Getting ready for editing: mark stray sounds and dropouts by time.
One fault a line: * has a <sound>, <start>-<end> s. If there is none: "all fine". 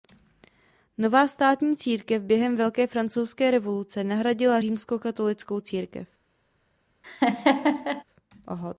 * has a laugh, 7.0-8.0 s